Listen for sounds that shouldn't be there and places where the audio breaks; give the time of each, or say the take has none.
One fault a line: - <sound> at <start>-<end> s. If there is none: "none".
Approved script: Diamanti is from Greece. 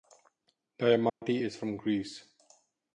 - dropout at 1.1-1.2 s